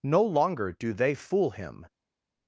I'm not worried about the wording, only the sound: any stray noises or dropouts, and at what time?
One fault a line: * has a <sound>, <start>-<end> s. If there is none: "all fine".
all fine